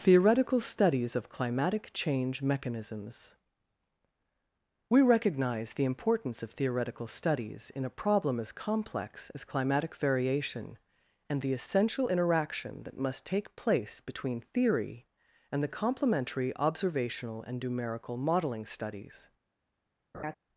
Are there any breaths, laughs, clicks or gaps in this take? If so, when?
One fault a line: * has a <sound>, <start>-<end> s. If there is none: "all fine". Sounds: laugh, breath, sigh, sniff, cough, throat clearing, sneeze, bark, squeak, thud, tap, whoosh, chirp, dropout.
* has a laugh, 20.1-20.3 s